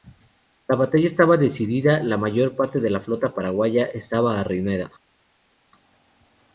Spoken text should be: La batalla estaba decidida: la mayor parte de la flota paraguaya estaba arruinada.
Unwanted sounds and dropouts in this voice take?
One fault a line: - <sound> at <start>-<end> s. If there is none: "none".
none